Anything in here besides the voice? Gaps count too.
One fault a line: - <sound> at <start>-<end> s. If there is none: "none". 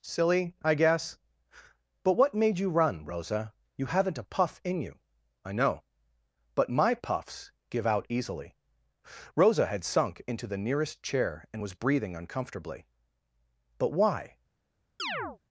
- chirp at 15.0-15.4 s